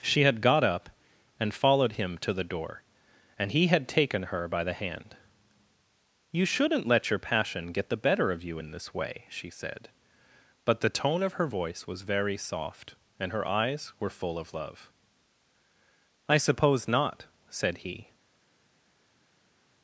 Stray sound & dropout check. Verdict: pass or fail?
pass